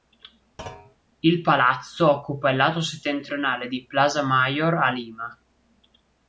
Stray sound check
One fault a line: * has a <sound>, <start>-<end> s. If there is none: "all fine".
* has a thud, 0.6-1.0 s